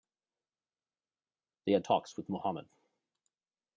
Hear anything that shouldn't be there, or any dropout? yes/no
no